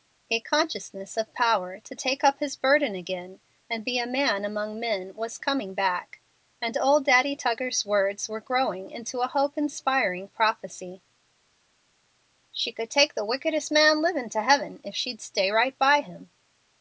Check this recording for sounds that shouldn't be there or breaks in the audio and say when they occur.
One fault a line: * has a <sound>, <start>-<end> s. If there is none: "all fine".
all fine